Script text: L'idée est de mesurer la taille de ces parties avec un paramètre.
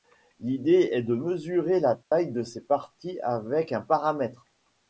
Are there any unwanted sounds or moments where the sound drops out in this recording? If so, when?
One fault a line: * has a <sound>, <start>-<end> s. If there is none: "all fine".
* has a dropout, 2.0-2.1 s